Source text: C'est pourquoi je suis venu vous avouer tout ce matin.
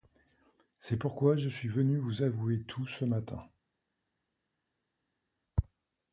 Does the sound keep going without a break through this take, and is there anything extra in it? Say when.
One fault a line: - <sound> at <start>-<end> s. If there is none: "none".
none